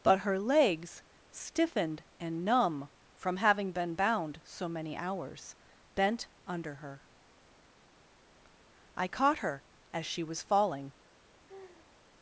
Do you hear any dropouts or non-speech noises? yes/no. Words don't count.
yes